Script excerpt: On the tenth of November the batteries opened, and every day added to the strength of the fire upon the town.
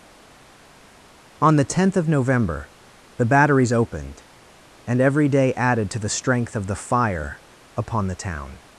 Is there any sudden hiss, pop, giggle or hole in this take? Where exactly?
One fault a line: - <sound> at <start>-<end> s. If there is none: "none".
none